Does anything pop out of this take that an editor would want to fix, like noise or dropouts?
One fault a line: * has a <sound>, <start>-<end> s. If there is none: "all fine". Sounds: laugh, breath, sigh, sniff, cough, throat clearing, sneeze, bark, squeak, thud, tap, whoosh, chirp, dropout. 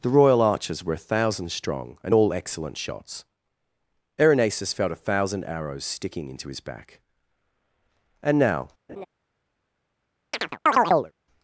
* has a laugh, 8.9-9.1 s
* has a chirp, 10.3-11.1 s